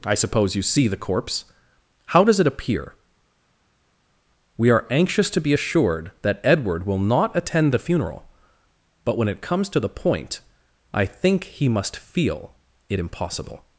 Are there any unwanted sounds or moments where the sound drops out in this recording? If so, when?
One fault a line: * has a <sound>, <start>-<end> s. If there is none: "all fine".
all fine